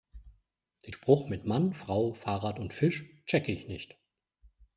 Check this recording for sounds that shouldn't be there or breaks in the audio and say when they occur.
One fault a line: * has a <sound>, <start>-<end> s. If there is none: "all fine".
all fine